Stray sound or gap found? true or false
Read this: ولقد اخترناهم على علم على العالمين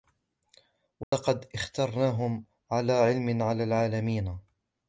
true